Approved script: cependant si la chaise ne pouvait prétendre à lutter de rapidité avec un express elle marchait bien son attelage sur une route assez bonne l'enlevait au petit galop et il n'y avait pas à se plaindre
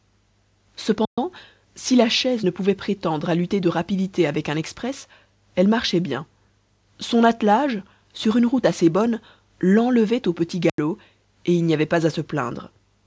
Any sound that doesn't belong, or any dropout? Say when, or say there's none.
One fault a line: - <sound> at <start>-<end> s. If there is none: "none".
- dropout at 1.0-1.2 s
- dropout at 10.7-10.8 s